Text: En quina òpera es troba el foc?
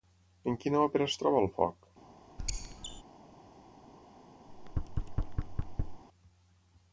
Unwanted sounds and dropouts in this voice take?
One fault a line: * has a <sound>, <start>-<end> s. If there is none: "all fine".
* has a squeak, 2.4-3.0 s
* has a thud, 4.5-6.0 s